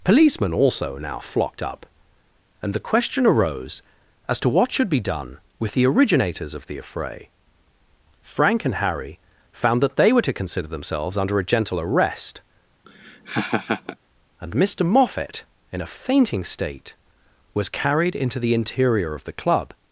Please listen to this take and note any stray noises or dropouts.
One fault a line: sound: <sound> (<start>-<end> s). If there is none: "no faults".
sound: laugh (12.8-14.0 s)